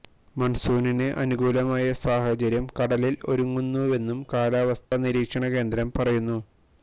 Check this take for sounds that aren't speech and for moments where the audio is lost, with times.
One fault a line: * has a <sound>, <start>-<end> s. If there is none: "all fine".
* has a dropout, 4.8-4.9 s